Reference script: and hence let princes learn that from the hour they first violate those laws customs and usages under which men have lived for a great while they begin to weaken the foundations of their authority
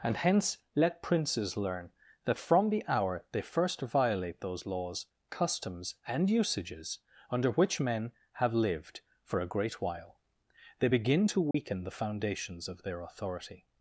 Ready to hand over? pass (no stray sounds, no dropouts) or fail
fail